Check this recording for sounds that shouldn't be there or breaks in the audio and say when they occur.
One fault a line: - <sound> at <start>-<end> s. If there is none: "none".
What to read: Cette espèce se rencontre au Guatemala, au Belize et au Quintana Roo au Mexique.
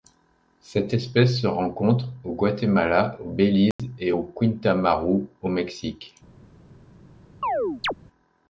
- dropout at 3.7-3.8 s
- chirp at 7.4-7.9 s